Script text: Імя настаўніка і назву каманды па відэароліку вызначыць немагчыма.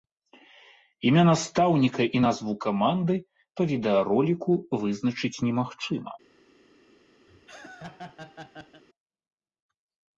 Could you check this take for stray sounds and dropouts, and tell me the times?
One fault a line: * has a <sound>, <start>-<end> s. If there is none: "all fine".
* has a laugh, 7.3-8.8 s